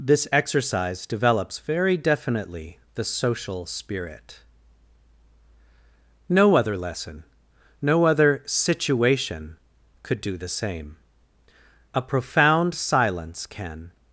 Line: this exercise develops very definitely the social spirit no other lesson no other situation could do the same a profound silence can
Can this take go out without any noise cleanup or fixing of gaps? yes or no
yes